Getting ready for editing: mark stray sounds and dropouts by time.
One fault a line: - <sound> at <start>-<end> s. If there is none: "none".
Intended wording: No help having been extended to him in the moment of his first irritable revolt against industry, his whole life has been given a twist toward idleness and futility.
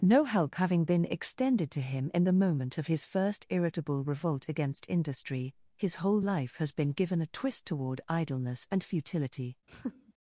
- laugh at 9.7-10.1 s